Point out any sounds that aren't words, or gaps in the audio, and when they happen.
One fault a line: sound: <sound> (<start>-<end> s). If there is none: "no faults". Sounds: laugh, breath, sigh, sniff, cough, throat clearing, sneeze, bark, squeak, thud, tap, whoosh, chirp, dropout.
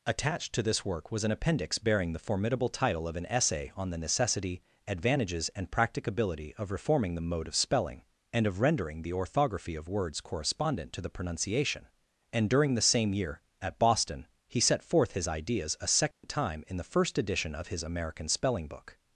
sound: dropout (16.1-16.2 s)